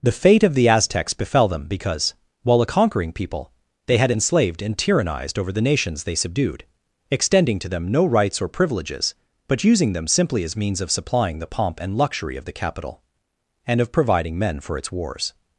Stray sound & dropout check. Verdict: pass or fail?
pass